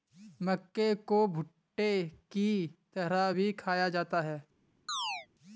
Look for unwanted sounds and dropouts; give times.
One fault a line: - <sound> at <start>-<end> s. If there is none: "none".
- chirp at 4.9-5.3 s